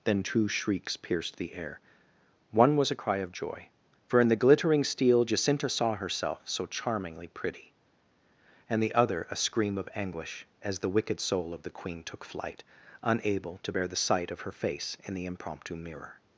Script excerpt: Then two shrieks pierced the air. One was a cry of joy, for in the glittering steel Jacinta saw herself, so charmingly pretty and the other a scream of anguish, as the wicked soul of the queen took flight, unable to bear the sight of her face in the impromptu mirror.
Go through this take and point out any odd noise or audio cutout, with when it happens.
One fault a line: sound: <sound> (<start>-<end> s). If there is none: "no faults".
no faults